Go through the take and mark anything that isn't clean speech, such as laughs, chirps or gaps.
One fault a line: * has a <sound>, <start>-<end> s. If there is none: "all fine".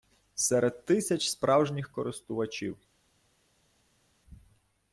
all fine